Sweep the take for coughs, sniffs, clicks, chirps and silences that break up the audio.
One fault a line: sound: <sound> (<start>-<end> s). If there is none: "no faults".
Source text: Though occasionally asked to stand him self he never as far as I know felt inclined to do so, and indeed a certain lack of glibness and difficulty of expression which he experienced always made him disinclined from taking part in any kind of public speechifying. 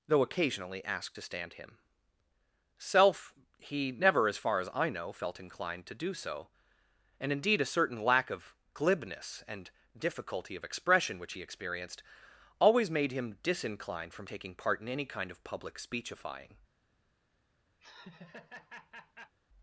sound: laugh (17.8-19.3 s)